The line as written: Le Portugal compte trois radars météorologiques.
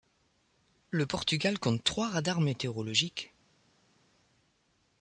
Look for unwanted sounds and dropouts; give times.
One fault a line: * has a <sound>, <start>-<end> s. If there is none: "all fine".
all fine